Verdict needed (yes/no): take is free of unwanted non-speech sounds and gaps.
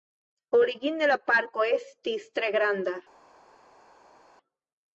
yes